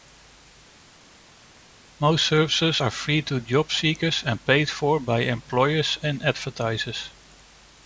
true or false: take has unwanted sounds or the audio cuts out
false